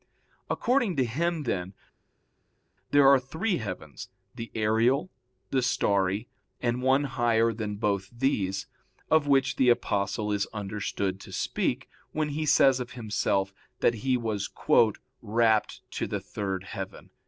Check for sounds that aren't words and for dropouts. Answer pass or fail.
pass